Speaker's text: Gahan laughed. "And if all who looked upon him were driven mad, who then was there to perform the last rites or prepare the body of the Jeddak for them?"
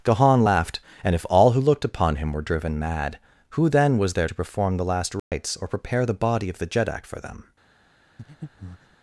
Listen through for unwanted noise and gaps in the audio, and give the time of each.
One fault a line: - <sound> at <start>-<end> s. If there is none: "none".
- dropout at 5.2-5.3 s
- breath at 8.2-9.0 s